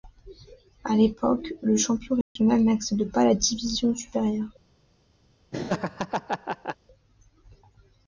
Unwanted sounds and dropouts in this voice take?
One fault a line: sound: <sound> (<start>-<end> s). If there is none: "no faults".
sound: dropout (2.2-2.4 s)
sound: laugh (5.5-6.8 s)